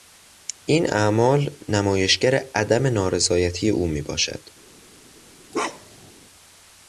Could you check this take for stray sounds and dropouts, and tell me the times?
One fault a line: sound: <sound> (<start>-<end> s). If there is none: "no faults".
sound: bark (5.5-6.1 s)